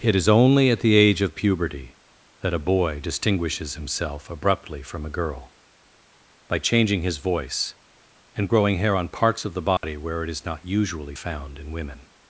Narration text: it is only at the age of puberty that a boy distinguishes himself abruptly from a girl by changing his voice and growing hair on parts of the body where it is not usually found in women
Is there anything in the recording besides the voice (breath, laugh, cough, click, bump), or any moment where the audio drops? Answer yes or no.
yes